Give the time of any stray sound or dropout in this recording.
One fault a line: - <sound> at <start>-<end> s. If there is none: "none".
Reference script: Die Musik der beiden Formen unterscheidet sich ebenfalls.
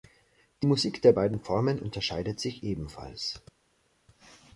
none